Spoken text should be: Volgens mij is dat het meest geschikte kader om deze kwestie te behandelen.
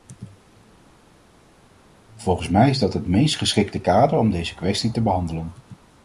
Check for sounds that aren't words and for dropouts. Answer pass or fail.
pass